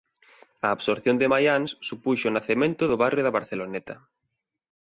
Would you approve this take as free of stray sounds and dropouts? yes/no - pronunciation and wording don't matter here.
yes